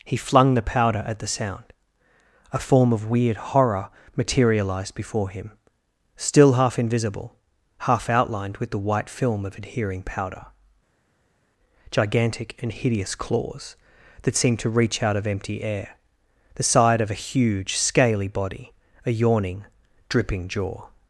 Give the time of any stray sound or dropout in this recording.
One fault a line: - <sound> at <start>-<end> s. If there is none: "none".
none